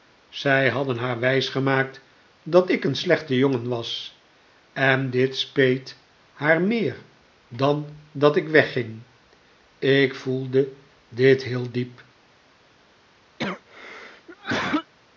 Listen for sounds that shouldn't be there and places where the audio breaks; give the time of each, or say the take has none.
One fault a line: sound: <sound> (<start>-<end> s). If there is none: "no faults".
sound: cough (13.4-14.9 s)